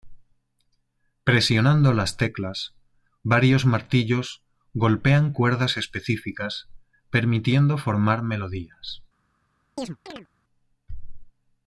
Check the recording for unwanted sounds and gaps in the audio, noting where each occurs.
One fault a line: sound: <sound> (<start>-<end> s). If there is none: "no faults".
sound: chirp (9.8-10.3 s)